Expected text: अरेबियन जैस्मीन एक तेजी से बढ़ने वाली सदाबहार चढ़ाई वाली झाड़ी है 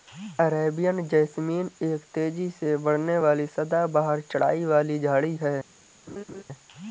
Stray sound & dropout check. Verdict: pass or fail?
fail